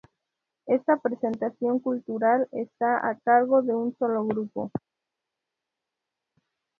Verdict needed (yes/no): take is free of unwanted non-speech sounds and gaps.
yes